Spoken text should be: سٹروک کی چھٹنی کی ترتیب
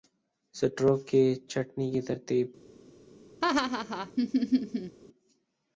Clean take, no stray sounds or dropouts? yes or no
no